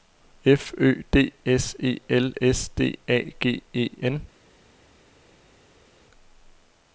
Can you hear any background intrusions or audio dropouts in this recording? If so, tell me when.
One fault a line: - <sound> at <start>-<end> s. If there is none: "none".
none